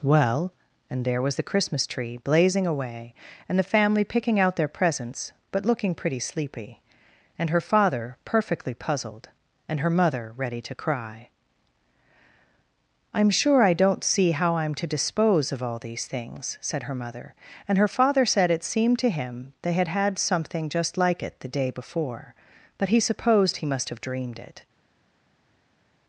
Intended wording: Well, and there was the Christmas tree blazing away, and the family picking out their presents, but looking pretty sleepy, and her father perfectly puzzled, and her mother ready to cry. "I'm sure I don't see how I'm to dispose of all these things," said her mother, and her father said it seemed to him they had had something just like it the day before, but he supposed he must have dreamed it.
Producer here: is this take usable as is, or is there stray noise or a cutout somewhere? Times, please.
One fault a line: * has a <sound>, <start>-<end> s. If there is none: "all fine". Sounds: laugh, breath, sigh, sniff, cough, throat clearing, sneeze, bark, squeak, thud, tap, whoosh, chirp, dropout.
all fine